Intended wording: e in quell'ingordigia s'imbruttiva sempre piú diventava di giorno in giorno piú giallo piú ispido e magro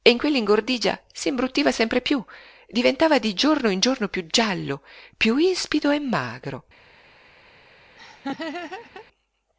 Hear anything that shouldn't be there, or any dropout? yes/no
yes